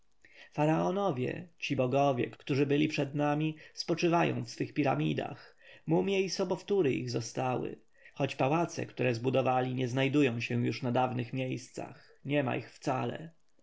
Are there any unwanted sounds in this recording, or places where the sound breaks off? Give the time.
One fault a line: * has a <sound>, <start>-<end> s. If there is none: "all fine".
all fine